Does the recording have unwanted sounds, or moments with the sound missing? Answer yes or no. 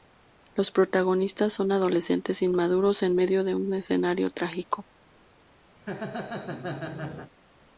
yes